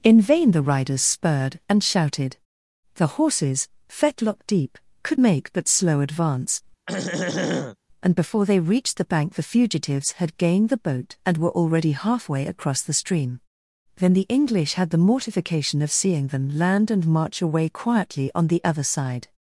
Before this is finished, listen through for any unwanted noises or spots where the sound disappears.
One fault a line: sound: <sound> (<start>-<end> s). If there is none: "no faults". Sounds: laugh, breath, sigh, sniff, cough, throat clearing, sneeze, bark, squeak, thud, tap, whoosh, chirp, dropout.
sound: throat clearing (6.9-7.8 s)